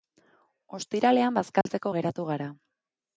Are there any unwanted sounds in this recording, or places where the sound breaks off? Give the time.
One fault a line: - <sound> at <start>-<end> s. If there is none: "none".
- dropout at 1.6-1.7 s